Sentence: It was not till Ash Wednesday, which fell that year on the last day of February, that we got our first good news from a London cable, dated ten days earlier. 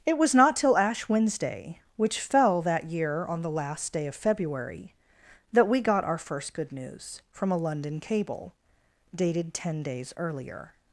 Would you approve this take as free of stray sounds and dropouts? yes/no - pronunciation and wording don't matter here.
yes